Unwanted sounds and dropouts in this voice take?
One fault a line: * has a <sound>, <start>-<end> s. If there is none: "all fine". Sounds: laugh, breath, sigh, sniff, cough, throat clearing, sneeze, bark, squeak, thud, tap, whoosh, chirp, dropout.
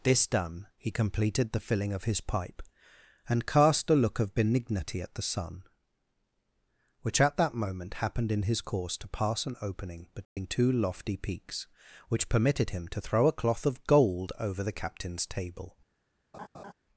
* has a dropout, 10.2-10.4 s
* has a laugh, 16.3-16.7 s